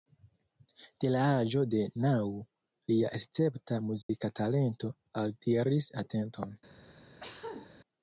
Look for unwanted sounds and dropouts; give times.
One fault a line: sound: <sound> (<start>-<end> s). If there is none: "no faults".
sound: dropout (4.0-4.1 s)
sound: cough (7.2-7.7 s)